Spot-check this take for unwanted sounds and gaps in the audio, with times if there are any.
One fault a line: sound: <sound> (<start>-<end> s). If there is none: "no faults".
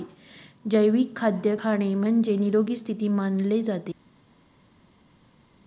no faults